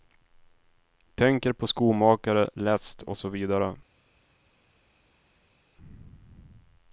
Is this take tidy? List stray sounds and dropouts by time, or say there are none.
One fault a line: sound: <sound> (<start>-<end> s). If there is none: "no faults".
no faults